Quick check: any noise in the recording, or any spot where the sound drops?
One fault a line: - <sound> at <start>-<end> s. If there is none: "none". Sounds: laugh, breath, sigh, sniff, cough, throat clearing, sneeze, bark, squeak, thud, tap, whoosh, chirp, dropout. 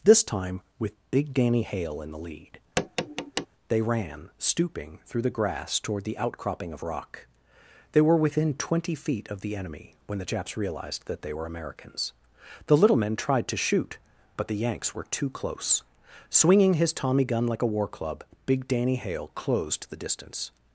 - tap at 2.8-3.5 s